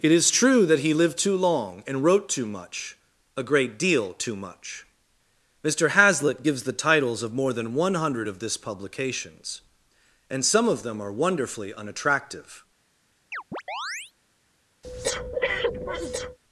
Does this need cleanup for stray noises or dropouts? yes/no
yes